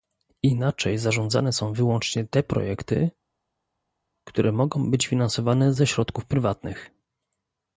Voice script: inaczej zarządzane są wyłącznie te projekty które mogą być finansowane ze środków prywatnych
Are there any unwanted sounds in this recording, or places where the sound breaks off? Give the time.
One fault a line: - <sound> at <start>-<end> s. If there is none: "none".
none